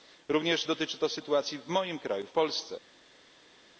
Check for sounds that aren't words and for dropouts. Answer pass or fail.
pass